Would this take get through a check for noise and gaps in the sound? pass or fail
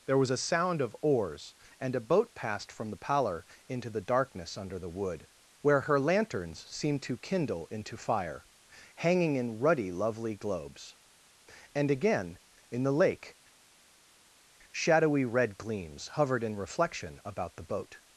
pass